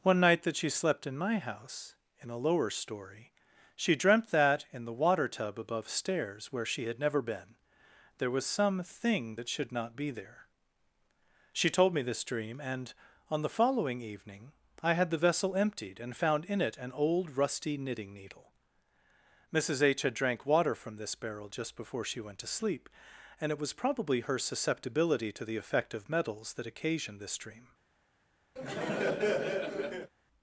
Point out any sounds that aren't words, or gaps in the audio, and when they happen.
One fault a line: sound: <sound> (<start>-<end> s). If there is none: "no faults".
sound: laugh (28.6-30.1 s)